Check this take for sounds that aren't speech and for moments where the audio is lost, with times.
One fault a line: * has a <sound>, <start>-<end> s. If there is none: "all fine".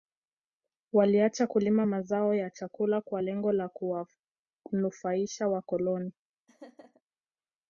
* has a laugh, 6.5-7.0 s